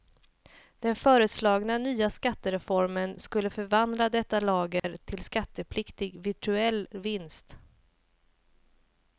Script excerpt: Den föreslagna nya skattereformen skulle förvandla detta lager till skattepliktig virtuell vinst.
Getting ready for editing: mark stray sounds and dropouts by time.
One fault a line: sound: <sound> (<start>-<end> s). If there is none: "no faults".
sound: dropout (4.8-4.8 s)